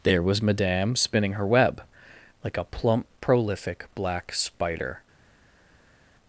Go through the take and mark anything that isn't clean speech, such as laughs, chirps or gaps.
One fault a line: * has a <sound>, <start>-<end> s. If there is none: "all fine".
all fine